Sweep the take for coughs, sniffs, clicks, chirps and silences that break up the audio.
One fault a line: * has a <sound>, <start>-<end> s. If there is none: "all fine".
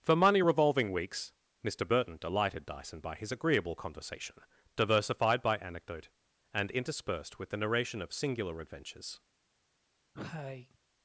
* has a cough, 10.1-10.8 s